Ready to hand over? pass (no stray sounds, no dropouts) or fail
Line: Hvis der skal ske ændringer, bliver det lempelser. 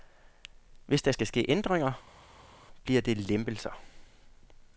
pass